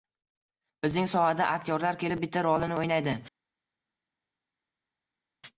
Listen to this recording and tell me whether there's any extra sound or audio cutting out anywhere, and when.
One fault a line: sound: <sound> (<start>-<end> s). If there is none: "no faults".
no faults